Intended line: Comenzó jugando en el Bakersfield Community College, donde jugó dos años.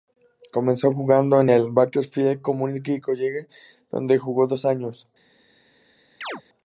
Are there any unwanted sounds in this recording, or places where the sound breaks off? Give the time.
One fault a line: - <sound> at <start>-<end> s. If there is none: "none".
- chirp at 6.2-6.4 s